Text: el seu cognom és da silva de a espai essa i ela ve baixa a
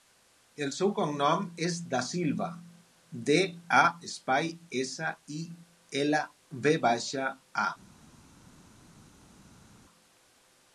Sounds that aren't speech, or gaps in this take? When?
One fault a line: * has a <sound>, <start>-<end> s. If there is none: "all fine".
all fine